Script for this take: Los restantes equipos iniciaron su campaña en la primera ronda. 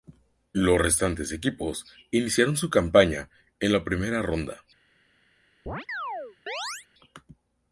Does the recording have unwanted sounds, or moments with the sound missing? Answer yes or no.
yes